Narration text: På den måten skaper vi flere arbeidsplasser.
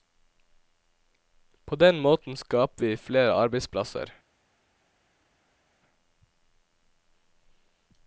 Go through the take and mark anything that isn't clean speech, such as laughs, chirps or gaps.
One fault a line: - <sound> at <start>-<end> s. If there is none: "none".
none